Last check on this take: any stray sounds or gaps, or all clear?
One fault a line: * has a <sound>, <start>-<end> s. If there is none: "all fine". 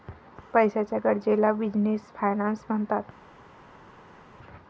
all fine